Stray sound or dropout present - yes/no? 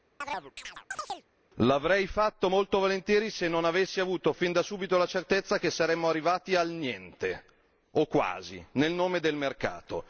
yes